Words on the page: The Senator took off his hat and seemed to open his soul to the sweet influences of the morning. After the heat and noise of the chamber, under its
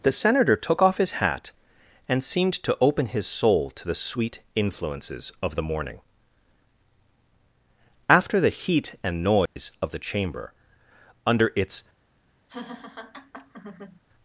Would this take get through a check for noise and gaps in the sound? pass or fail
fail